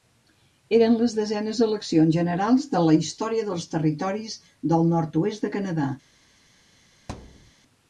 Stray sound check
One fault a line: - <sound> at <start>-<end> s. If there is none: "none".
- thud at 7.1-7.5 s